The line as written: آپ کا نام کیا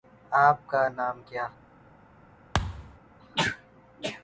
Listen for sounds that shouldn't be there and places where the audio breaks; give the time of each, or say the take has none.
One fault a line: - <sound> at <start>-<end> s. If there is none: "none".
- thud at 2.5-3.0 s